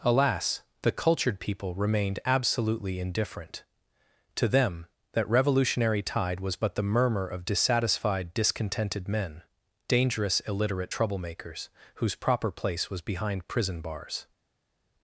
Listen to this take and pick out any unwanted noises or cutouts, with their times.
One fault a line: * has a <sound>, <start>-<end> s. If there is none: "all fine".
all fine